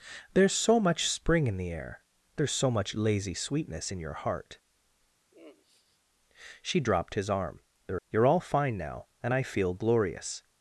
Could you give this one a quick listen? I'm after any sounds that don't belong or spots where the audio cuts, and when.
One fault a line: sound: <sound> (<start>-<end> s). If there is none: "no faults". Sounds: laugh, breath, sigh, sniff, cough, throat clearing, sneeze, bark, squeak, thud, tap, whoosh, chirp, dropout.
sound: sigh (5.3-6.0 s)